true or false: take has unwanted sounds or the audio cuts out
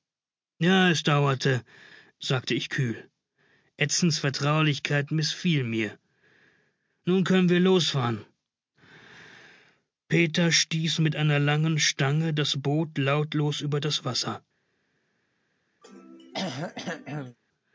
true